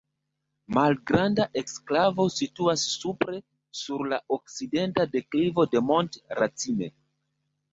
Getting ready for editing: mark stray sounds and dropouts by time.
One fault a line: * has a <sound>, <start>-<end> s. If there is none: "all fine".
all fine